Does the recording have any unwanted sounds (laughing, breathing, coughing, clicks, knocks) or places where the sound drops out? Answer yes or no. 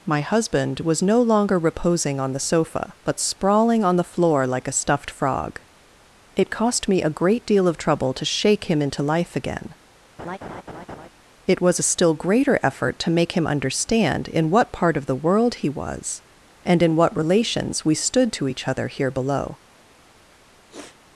yes